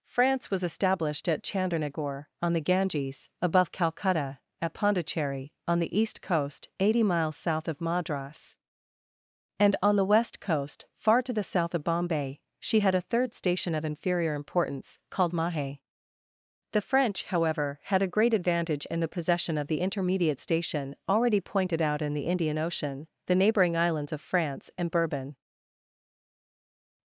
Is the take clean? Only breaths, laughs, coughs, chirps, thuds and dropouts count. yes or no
yes